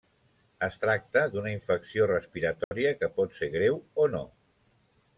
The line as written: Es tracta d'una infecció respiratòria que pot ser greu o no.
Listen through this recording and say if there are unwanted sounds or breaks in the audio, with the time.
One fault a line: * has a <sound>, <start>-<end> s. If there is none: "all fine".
* has a dropout, 2.6-2.7 s